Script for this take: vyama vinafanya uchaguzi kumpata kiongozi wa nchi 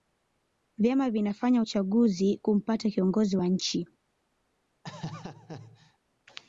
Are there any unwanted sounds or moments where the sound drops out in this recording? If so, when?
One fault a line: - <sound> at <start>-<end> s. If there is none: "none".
- laugh at 4.8-6.0 s